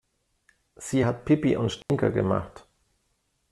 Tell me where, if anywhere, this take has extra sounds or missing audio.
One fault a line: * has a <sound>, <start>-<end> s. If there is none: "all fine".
* has a dropout, 1.8-1.9 s